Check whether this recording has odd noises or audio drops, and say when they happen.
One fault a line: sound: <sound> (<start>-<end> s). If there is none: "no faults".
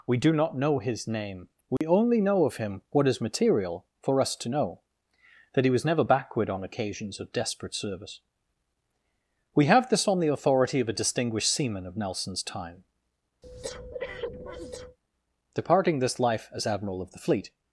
sound: dropout (1.8-1.8 s)
sound: breath (13.4-15.0 s)